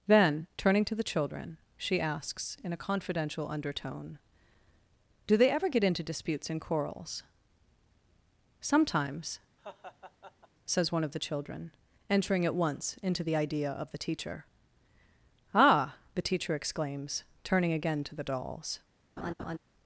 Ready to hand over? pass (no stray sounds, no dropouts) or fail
fail